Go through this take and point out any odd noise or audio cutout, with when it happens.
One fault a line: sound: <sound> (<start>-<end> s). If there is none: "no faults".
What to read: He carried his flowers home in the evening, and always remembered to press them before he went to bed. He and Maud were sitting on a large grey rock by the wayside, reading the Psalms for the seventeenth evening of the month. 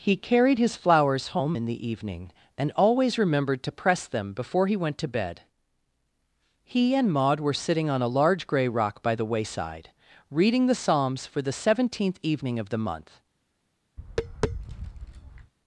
sound: tap (14.0-15.5 s)